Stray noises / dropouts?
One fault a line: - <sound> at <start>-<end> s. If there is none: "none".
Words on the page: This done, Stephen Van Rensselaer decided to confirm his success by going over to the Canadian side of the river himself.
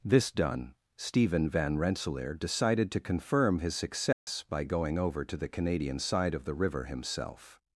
- dropout at 4.1-4.3 s